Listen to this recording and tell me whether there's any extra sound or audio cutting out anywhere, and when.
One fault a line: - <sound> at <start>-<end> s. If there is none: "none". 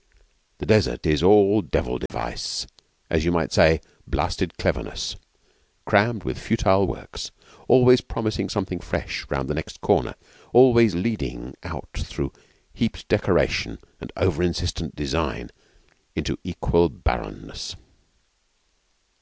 - dropout at 2.1-2.1 s